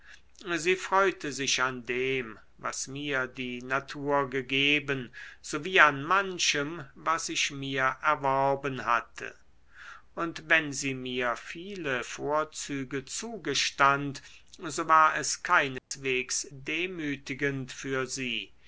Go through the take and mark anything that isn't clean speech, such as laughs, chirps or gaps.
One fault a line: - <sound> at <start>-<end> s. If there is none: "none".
- dropout at 15.8-15.9 s